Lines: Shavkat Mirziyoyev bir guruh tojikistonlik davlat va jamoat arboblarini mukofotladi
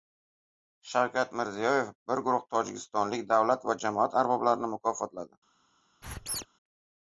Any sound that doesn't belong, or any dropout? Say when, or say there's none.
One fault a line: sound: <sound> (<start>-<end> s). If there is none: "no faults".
sound: squeak (6.0-6.5 s)